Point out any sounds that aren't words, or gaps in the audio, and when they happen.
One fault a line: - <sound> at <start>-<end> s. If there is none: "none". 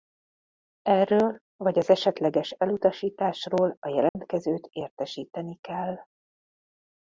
- dropout at 4.1-4.2 s